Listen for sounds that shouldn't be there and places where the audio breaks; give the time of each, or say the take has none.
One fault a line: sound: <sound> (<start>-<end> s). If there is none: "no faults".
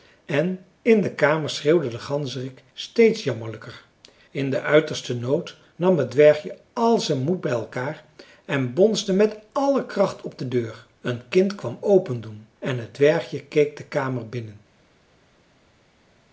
no faults